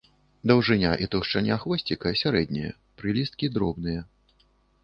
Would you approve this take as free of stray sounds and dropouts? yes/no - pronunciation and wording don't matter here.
yes